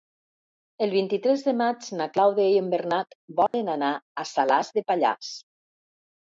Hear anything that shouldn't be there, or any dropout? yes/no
yes